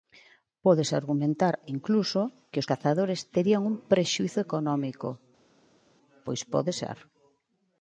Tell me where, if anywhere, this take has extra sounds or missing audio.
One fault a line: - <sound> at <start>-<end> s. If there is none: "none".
none